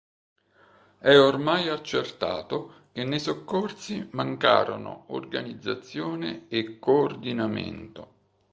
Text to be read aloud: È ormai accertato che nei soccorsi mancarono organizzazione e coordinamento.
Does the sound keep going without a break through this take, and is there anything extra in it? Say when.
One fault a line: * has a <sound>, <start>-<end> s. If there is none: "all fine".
all fine